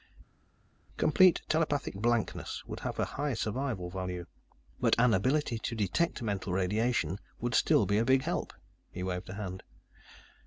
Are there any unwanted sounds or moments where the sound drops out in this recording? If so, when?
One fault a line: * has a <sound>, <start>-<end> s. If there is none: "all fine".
all fine